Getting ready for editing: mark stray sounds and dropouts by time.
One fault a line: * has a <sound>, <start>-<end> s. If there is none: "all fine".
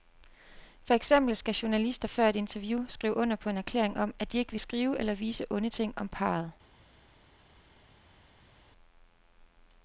all fine